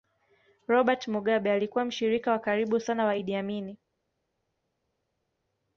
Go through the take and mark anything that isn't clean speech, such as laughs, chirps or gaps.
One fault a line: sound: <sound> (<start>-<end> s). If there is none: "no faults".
no faults